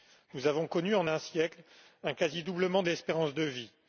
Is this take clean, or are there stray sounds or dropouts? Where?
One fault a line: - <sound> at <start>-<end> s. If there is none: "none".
none